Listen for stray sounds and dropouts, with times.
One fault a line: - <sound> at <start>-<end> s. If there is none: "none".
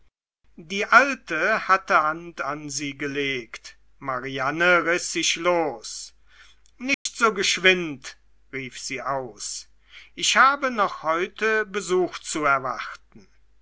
- dropout at 6.9-7.1 s